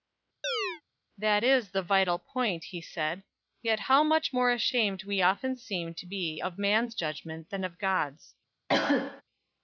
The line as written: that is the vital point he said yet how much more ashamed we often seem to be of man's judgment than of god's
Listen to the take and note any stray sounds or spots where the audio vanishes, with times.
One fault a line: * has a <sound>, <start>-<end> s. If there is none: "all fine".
* has a chirp, 0.4-0.8 s
* has a cough, 8.7-9.2 s